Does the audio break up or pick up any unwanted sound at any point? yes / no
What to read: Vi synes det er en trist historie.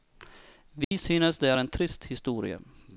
yes